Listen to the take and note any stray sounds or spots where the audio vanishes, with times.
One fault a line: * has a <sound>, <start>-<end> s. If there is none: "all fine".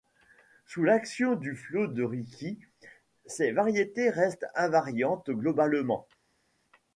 all fine